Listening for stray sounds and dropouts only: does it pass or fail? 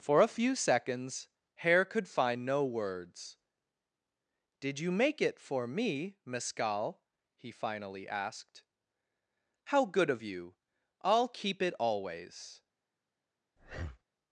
fail